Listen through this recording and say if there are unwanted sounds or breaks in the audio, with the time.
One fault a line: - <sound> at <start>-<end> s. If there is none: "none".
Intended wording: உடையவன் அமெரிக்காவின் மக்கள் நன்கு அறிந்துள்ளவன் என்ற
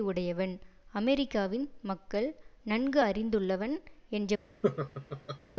- laugh at 4.6-5.4 s